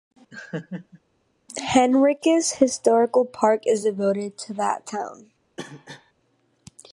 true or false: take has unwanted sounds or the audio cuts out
true